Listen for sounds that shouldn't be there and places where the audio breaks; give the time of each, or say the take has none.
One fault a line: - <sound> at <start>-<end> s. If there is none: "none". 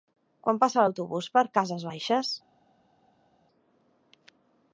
none